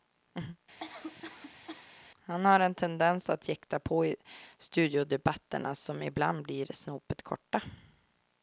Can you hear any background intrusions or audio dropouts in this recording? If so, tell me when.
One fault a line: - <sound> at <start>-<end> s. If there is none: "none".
- cough at 0.8-1.9 s